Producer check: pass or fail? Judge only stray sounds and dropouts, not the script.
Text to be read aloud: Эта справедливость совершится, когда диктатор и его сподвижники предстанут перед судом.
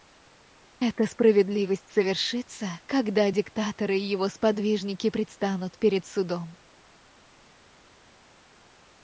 pass